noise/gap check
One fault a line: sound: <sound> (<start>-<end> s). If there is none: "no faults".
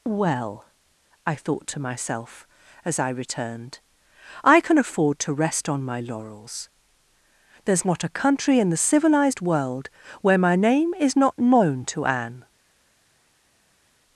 no faults